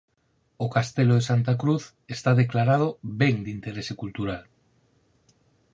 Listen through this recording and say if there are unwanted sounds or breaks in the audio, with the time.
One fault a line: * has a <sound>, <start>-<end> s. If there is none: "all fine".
all fine